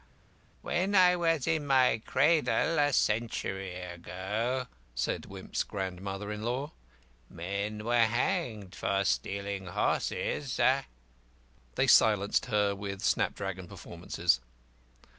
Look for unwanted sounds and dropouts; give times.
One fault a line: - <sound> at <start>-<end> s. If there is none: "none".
none